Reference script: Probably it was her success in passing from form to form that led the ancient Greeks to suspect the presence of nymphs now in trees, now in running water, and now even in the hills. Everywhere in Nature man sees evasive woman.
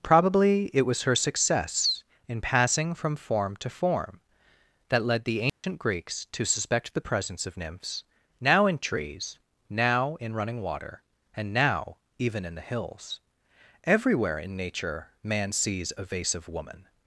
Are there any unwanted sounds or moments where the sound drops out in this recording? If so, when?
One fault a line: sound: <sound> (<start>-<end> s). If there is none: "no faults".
sound: dropout (5.5-5.6 s)